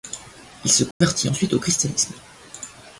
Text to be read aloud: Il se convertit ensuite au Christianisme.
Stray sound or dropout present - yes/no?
yes